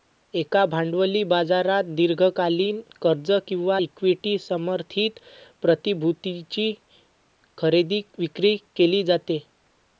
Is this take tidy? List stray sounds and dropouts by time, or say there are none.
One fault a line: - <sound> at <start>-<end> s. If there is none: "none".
none